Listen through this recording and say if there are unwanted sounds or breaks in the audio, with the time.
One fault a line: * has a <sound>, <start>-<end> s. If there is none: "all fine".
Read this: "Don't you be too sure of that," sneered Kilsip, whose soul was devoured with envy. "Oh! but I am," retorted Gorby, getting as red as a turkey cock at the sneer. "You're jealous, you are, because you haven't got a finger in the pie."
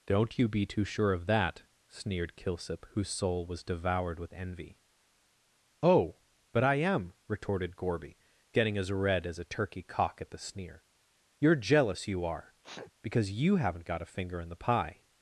* has a sneeze, 12.6-12.9 s